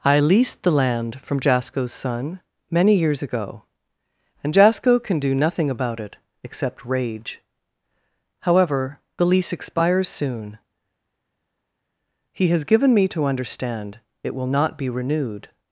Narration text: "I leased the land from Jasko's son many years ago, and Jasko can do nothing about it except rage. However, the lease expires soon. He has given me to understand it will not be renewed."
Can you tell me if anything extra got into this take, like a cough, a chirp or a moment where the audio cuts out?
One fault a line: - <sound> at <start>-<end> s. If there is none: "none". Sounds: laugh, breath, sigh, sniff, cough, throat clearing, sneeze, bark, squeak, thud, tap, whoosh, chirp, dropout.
none